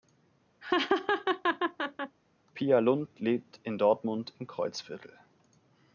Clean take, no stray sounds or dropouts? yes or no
no